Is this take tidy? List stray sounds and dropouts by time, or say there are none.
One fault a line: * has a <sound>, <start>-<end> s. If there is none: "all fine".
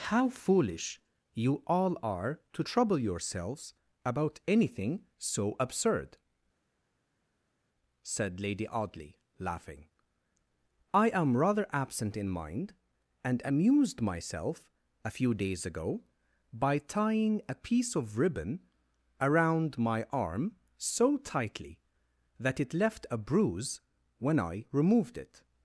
all fine